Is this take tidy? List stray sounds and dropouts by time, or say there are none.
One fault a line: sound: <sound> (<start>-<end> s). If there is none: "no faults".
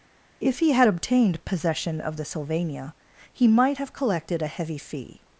no faults